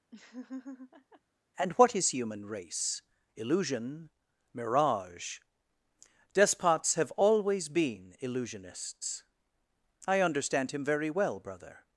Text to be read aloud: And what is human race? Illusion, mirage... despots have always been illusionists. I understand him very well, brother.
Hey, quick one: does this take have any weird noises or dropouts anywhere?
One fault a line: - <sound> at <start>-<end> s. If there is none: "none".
- laugh at 0.1-1.2 s